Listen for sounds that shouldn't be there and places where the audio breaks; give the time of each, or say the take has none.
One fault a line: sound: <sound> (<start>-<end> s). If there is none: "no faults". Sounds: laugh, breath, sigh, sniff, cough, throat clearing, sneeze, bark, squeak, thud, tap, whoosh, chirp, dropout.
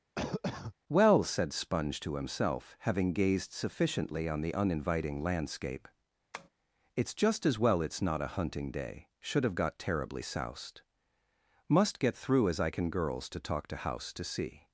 sound: cough (0.2-0.7 s)
sound: tap (6.3-6.5 s)